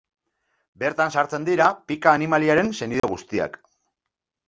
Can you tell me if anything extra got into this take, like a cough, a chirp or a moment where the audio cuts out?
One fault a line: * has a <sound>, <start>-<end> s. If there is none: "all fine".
* has a dropout, 3.0-3.0 s